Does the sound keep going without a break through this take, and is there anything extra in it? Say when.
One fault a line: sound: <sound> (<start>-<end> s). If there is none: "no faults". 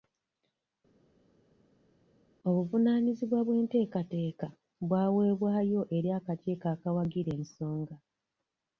no faults